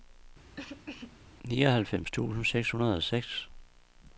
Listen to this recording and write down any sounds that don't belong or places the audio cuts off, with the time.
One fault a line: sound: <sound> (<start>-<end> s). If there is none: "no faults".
sound: cough (0.6-1.2 s)